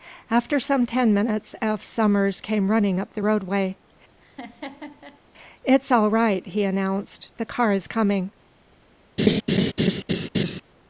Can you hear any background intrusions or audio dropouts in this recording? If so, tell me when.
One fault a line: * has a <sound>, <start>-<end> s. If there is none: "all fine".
* has a laugh, 4.2-5.2 s
* has a laugh, 9.2-10.6 s